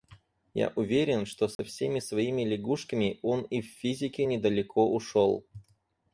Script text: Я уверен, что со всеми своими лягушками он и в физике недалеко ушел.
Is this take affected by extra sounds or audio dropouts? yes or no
yes